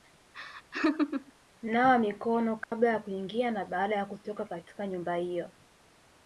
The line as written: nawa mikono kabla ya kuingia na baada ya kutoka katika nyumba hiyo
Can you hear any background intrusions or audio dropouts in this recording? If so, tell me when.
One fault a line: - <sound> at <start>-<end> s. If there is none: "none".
- laugh at 0.3-1.3 s
- dropout at 2.6-2.7 s